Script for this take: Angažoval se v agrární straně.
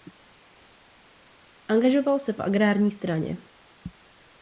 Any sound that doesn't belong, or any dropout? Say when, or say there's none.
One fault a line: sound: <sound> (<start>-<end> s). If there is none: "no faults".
no faults